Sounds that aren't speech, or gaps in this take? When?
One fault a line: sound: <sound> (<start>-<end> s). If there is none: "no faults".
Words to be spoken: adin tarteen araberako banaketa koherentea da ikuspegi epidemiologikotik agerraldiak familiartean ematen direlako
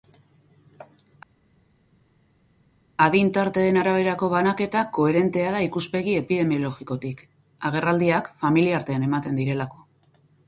no faults